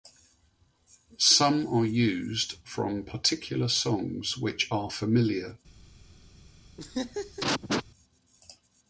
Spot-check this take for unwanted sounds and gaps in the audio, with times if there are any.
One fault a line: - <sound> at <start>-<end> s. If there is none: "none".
- laugh at 6.8-7.8 s